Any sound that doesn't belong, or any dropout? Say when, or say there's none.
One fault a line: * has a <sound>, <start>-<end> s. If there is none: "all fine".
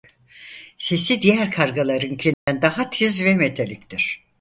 * has a dropout, 2.3-2.5 s